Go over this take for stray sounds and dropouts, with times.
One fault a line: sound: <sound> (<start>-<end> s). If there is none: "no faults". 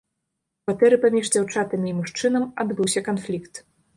no faults